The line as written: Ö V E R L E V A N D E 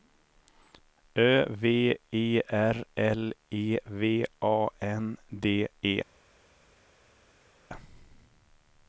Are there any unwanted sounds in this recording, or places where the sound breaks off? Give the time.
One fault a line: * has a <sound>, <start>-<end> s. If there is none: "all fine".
all fine